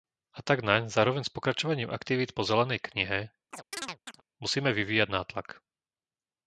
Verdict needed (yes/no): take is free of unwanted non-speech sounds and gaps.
no